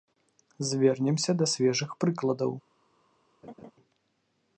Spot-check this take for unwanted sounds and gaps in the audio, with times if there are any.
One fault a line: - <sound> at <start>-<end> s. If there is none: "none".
- laugh at 3.4-3.7 s